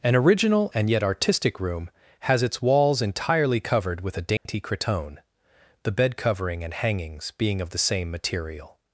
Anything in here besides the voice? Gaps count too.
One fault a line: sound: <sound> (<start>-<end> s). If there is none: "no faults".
sound: dropout (4.4-4.5 s)